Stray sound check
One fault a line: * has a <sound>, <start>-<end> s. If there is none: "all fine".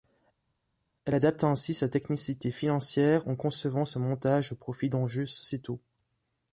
all fine